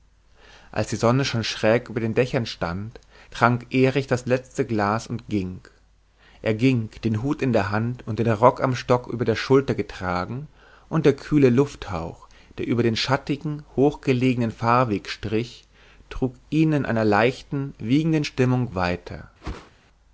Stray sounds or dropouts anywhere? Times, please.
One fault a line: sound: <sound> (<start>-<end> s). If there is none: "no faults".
sound: whoosh (19.4-19.7 s)